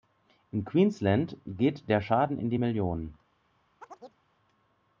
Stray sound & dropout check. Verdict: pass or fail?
fail